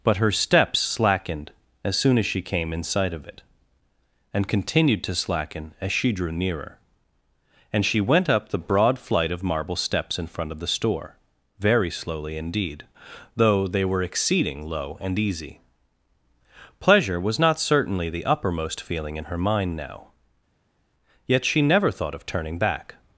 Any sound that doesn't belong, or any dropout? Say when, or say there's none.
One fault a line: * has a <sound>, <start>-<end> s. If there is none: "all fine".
all fine